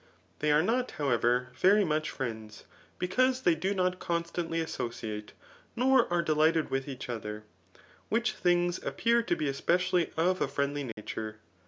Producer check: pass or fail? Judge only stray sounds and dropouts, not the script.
fail